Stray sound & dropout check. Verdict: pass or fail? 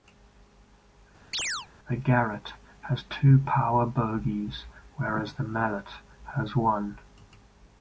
fail